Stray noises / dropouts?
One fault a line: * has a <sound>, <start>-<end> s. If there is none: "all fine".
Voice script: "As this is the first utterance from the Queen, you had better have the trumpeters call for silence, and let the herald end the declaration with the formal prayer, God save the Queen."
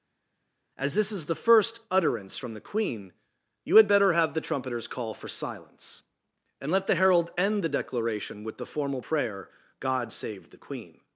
all fine